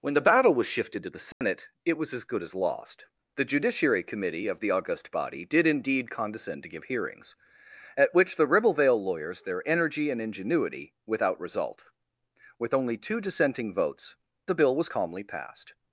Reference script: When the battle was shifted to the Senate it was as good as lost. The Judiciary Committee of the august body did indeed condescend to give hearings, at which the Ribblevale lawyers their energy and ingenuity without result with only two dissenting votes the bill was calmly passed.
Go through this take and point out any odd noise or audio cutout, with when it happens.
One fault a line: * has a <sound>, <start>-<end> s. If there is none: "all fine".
* has a dropout, 1.3-1.4 s